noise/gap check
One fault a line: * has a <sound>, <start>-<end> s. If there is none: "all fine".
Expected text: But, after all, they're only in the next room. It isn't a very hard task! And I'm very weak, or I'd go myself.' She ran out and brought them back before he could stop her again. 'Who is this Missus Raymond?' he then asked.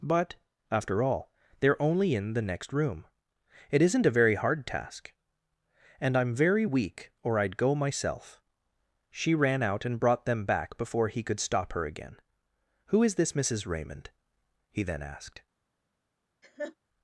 * has a laugh, 16.4-16.8 s